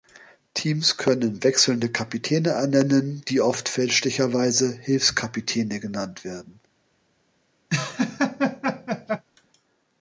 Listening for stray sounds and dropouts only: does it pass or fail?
fail